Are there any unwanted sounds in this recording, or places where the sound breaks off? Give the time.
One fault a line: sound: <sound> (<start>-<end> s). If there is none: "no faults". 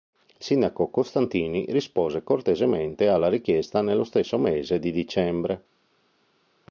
no faults